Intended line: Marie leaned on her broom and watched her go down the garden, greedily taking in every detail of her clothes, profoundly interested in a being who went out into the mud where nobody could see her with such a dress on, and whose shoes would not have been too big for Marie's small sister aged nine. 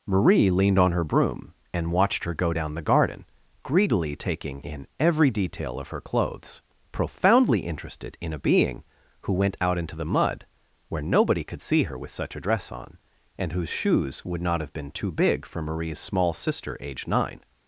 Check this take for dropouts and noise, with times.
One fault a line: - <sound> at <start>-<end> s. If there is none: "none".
none